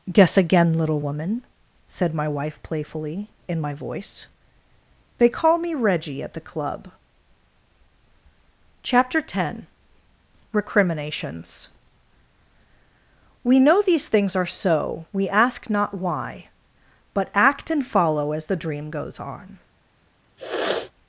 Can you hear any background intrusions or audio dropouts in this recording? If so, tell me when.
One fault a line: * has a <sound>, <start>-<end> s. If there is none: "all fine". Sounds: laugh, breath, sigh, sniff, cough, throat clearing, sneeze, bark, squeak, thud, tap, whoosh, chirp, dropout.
* has a sniff, 20.4-20.9 s